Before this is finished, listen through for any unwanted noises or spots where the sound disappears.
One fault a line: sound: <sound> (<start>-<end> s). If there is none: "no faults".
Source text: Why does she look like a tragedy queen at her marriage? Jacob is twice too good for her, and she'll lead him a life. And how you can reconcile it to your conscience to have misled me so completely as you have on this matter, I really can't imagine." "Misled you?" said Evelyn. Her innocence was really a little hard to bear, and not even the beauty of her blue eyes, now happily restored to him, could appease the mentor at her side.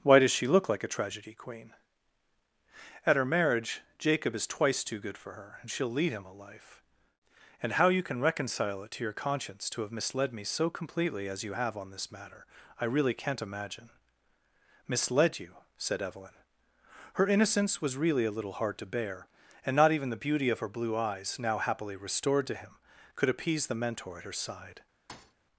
sound: thud (25.1-25.3 s)